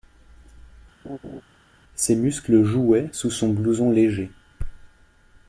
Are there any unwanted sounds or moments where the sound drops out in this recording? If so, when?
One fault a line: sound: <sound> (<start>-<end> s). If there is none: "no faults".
sound: laugh (1.0-1.4 s)